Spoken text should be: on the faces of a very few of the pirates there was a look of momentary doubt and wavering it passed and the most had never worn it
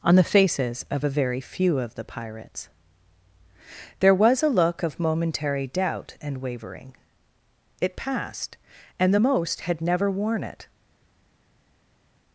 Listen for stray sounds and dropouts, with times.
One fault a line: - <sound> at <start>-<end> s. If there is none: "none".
none